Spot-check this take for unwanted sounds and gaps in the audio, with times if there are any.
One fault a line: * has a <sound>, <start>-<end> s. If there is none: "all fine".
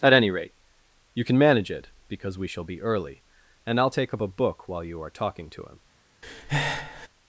* has a breath, 6.2-7.1 s